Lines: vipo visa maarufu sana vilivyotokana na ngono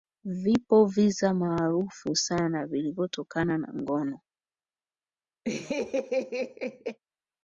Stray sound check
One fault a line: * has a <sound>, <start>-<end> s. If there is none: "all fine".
* has a laugh, 5.4-7.0 s